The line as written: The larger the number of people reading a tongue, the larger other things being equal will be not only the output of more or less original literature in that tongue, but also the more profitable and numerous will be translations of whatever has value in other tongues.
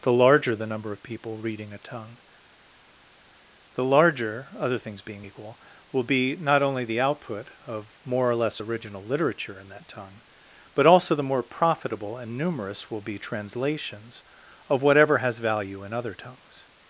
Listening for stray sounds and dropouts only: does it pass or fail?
pass